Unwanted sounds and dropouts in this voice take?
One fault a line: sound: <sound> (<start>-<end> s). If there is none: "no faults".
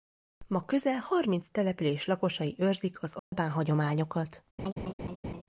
sound: dropout (3.2-3.3 s)
sound: laugh (4.6-5.4 s)